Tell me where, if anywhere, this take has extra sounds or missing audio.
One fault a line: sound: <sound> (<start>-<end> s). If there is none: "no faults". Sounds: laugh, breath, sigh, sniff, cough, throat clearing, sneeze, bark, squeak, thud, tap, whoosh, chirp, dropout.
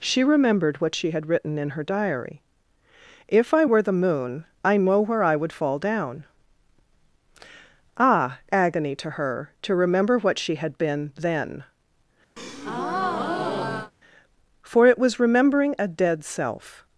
sound: breath (12.4-13.9 s)